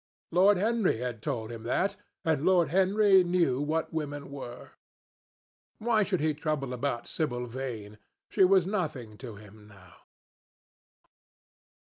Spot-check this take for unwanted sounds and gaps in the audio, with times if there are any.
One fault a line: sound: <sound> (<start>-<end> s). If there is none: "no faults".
no faults